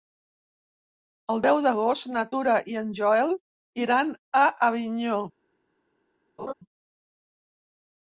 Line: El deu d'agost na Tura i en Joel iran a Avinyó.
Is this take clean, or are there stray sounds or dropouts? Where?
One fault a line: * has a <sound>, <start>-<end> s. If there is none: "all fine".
* has a laugh, 6.4-6.5 s